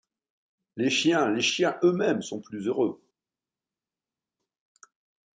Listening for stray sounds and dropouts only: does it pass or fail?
pass